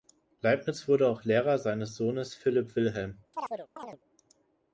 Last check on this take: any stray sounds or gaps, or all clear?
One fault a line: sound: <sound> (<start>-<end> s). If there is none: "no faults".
sound: chirp (3.3-4.0 s)